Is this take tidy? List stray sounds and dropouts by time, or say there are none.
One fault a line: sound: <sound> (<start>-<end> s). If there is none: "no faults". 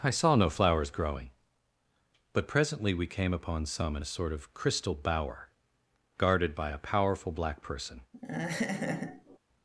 sound: laugh (8.1-9.4 s)